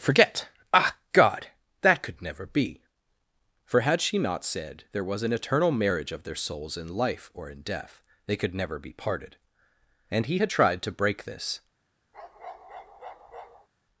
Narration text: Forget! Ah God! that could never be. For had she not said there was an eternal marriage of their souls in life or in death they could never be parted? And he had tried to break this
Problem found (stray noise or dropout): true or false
true